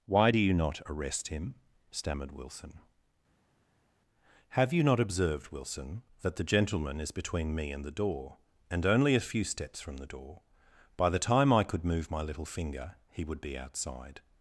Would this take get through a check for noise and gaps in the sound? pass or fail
pass